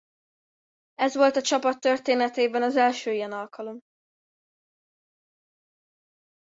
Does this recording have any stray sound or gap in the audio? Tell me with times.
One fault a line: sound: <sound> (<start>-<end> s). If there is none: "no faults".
no faults